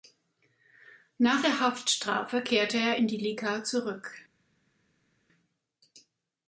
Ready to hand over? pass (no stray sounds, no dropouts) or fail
pass